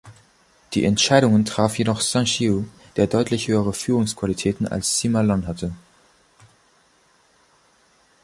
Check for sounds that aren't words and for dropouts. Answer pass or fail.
pass